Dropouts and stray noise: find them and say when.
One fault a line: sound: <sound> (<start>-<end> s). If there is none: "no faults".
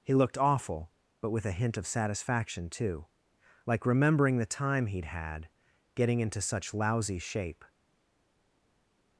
no faults